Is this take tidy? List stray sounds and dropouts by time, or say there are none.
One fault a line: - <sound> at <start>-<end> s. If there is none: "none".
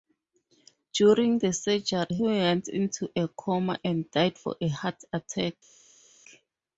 none